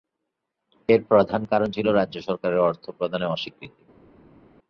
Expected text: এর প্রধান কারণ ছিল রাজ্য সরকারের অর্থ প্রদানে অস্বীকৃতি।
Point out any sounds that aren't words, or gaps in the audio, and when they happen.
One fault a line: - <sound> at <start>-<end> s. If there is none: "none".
none